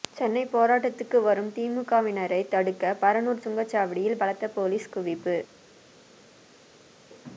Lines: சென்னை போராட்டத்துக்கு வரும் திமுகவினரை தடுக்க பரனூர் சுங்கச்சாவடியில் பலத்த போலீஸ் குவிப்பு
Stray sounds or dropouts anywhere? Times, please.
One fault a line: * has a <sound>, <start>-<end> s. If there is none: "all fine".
all fine